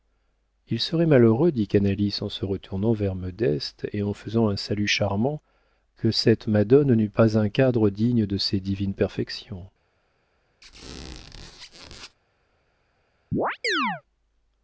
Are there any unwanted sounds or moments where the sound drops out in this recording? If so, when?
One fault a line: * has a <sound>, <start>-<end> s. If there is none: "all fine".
* has a squeak, 10.6-12.2 s
* has a chirp, 13.3-14.0 s